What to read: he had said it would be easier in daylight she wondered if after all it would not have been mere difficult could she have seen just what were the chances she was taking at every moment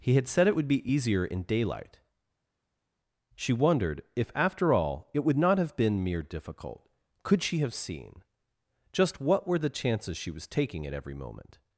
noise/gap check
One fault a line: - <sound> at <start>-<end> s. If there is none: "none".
none